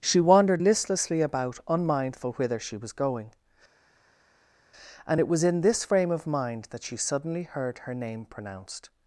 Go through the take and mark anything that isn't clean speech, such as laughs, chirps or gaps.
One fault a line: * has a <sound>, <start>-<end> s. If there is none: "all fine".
all fine